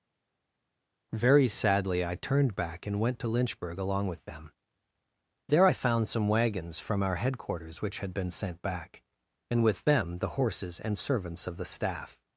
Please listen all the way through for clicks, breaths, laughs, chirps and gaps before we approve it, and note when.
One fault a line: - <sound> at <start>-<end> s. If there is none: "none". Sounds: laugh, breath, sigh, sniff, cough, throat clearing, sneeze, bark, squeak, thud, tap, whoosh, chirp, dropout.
none